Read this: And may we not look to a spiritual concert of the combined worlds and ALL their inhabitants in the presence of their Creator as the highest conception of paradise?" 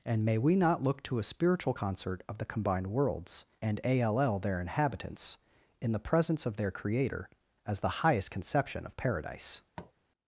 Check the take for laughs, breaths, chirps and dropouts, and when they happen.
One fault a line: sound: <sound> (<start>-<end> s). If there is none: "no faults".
sound: tap (9.8-9.9 s)